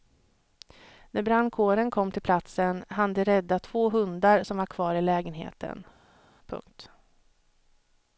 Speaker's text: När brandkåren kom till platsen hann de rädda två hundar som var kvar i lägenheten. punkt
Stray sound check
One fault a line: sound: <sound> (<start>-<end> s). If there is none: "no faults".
no faults